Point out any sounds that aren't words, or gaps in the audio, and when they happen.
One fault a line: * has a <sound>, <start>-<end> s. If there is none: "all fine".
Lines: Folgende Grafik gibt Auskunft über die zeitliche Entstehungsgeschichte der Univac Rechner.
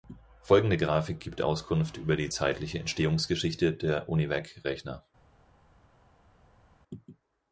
all fine